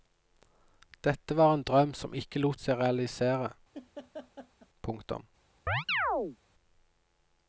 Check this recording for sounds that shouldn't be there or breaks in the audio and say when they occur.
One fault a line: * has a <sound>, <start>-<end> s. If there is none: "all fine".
* has a laugh, 3.7-4.7 s
* has a chirp, 5.7-6.4 s